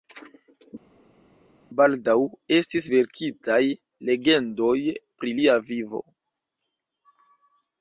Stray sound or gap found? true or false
false